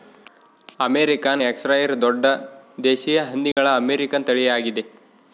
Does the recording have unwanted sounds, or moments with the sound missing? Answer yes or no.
yes